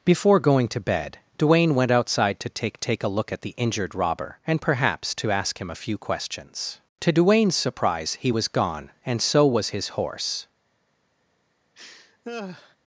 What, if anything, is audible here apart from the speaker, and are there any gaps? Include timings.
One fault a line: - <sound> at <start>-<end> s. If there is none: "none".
- laugh at 11.7-12.8 s